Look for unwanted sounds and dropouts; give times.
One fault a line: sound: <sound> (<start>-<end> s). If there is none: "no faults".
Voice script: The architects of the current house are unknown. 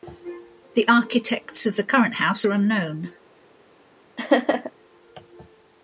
sound: laugh (4.2-4.7 s)